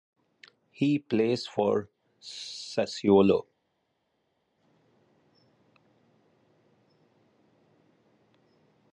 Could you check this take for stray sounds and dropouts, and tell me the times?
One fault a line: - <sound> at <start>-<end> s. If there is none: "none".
none